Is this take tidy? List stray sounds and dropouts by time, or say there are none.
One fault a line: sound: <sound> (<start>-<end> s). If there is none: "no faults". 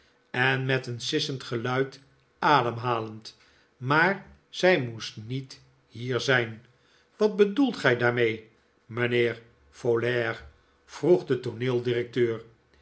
no faults